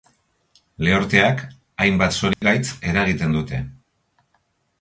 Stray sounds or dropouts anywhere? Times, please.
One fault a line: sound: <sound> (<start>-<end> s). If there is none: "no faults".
sound: dropout (2.3-2.4 s)